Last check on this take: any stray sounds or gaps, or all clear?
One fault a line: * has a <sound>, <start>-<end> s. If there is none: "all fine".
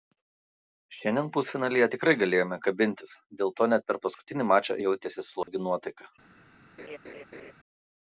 * has a dropout, 5.4-5.5 s
* has a laugh, 6.8-7.5 s